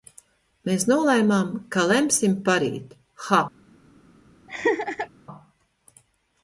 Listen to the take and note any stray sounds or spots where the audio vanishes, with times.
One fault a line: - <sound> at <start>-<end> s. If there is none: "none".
- laugh at 4.5-5.1 s